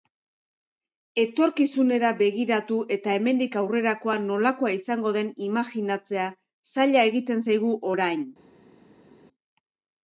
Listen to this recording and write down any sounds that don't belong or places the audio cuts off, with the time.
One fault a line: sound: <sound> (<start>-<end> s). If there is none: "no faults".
no faults